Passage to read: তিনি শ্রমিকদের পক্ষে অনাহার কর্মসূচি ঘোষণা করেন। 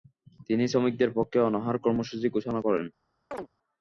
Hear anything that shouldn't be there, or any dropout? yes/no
yes